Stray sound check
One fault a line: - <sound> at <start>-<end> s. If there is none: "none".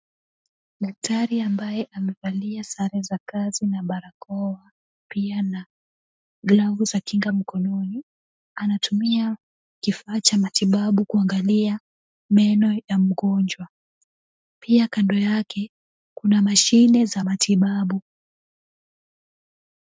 none